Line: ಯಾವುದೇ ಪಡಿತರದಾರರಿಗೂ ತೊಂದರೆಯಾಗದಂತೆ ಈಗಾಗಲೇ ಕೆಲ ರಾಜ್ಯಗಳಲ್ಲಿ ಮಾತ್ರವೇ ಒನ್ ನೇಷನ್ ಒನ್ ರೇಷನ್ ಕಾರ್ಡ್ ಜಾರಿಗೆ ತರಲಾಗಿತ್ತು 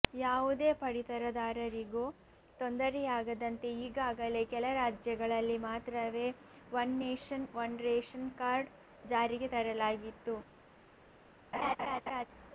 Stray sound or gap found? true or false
true